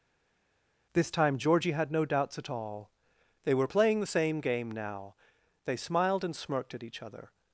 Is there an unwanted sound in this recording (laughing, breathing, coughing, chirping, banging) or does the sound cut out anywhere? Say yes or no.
no